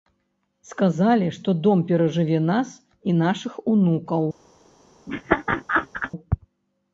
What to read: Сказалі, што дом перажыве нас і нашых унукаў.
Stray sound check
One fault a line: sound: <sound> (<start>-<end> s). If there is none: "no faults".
sound: laugh (5.1-6.1 s)